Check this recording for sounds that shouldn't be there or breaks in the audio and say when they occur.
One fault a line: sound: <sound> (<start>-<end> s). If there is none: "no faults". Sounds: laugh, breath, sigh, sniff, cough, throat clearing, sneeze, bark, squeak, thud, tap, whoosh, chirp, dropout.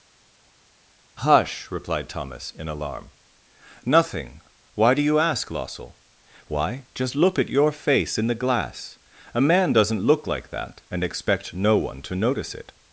no faults